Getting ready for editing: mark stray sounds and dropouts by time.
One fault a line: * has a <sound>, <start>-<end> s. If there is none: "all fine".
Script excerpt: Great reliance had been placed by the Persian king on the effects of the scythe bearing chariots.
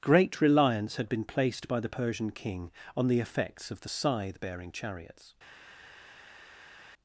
all fine